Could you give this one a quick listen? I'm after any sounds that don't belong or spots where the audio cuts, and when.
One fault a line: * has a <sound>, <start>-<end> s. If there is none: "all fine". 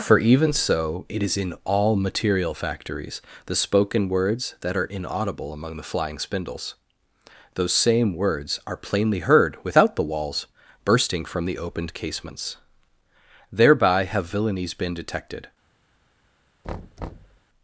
* has a thud, 16.6-17.4 s